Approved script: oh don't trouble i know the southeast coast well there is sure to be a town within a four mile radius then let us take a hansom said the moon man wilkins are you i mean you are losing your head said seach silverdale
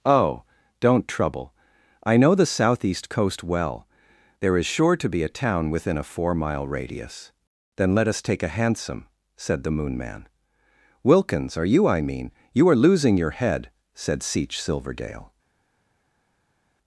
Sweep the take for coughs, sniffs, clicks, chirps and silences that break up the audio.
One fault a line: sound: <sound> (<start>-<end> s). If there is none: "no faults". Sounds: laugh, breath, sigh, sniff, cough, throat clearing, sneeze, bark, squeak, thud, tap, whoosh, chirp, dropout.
no faults